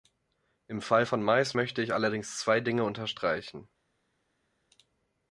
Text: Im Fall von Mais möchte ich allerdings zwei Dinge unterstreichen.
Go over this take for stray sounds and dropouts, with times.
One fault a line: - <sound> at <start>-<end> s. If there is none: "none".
none